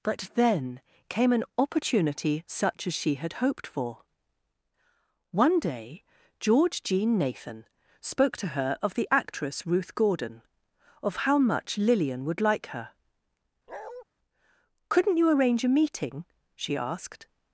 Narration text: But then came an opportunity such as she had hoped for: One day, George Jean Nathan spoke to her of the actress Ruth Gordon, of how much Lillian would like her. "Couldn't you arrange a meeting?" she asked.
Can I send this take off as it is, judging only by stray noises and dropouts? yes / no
no